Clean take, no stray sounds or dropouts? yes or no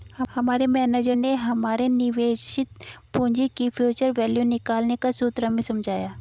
yes